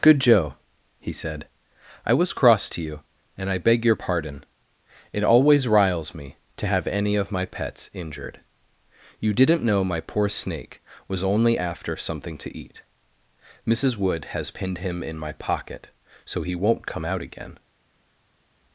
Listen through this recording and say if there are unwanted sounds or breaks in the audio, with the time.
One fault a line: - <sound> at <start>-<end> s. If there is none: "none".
none